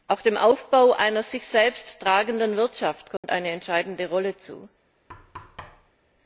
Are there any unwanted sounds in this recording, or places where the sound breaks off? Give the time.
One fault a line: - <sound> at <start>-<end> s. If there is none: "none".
- dropout at 3.2-3.2 s
- thud at 5.1-5.9 s